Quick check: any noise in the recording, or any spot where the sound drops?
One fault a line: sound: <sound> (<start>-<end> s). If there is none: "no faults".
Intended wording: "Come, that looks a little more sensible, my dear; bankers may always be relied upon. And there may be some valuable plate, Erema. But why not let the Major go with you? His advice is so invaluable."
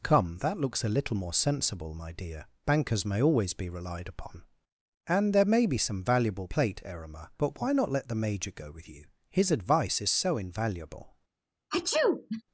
sound: sneeze (11.7-12.4 s)